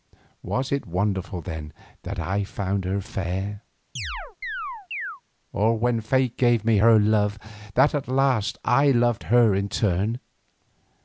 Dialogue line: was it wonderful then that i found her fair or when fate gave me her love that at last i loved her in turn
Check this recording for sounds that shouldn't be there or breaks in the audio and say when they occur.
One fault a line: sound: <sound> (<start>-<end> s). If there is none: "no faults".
sound: chirp (4.0-5.2 s)